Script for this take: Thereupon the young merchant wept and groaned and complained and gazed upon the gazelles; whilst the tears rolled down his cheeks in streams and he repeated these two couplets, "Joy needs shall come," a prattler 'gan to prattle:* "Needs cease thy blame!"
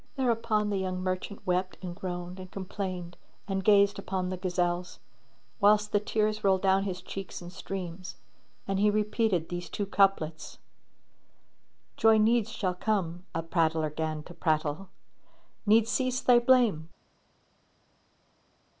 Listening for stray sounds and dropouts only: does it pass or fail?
pass